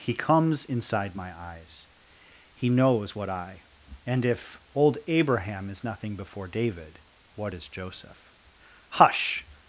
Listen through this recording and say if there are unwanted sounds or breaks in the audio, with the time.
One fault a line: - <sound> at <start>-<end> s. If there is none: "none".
none